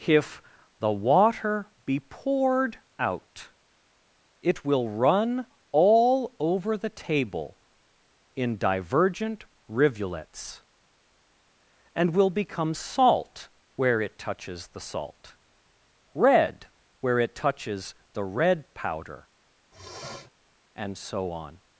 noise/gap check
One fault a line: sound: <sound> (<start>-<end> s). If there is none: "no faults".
sound: sniff (19.7-20.3 s)